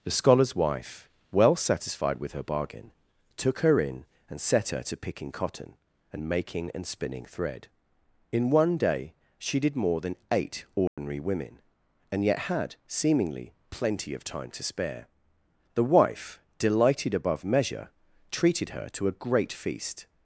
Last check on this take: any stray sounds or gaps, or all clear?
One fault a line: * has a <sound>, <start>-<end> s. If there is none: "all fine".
* has a dropout, 10.9-11.0 s